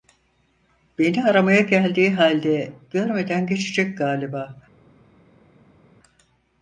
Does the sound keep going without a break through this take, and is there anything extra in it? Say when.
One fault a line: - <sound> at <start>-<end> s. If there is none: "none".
none